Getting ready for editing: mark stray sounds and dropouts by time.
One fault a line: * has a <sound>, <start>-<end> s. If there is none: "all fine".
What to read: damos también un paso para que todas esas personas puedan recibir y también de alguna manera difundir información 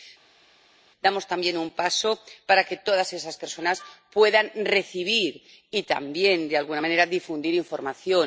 all fine